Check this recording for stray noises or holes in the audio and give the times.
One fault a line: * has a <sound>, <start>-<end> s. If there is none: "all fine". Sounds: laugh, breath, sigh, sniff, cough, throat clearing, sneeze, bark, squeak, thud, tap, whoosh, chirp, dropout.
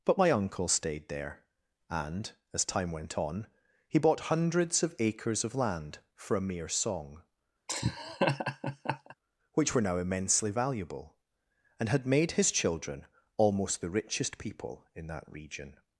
* has a laugh, 7.7-9.1 s